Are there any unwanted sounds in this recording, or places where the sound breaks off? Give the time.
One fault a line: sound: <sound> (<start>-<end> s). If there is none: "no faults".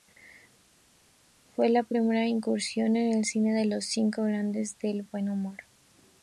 no faults